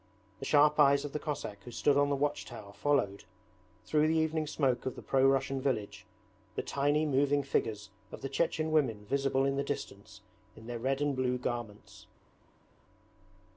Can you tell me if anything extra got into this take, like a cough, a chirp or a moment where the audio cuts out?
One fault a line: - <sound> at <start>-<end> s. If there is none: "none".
none